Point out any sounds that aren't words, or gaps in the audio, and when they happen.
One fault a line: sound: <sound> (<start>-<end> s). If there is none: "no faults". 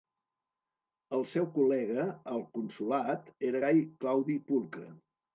no faults